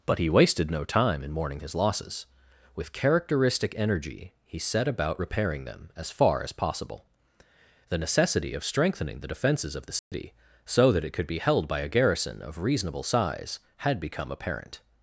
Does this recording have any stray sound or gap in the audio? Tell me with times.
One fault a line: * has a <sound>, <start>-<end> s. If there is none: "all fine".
* has a dropout, 10.0-10.1 s